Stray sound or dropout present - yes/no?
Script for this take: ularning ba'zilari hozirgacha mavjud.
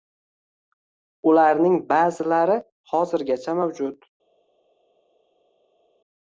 no